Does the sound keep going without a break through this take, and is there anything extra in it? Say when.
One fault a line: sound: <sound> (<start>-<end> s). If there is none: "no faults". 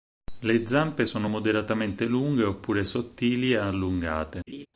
sound: laugh (4.5-4.7 s)